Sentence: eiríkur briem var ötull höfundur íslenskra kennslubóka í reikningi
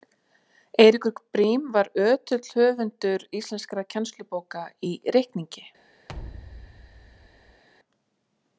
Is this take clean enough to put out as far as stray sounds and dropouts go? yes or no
no